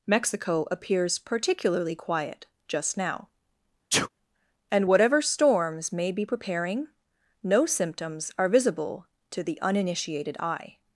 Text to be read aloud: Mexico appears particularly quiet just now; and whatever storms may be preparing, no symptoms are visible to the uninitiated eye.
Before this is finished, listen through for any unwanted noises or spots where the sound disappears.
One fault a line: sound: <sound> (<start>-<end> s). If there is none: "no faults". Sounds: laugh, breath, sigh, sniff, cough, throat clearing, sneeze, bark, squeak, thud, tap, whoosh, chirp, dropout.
sound: sneeze (3.9-4.1 s)